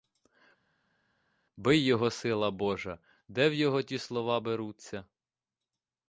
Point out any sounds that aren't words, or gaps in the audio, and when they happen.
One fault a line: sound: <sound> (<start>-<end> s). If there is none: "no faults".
no faults